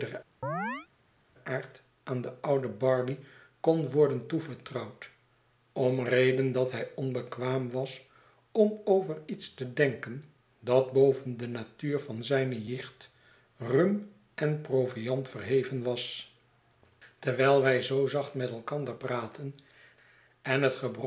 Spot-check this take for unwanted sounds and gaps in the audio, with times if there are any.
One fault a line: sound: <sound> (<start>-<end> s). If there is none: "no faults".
sound: chirp (0.4-0.9 s)